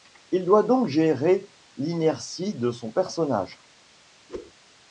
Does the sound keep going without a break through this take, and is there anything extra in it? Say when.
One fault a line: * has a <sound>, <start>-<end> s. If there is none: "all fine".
* has a whoosh, 4.3-4.5 s